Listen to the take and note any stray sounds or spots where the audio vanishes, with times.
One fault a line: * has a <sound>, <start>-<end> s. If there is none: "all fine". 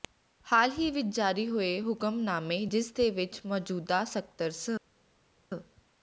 all fine